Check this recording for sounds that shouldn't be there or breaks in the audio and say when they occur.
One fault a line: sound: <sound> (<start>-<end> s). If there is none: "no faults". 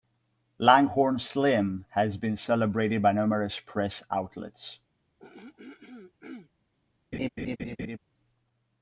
sound: throat clearing (5.2-6.5 s)
sound: laugh (7.1-8.0 s)